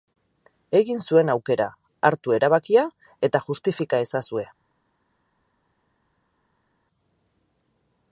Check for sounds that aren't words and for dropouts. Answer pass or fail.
pass